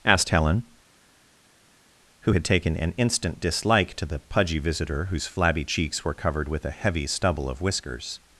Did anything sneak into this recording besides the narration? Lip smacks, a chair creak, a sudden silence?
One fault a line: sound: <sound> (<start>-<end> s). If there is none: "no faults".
no faults